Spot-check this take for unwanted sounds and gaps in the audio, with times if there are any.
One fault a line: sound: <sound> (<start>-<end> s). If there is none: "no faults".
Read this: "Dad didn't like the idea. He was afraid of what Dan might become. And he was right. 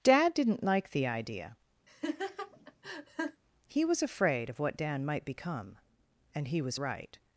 sound: laugh (1.9-3.4 s)